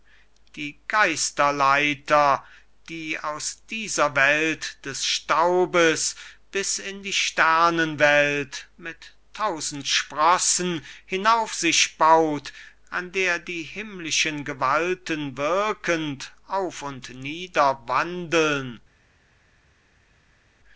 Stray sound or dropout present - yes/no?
no